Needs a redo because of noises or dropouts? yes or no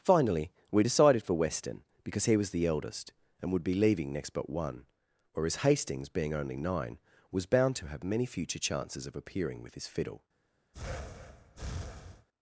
yes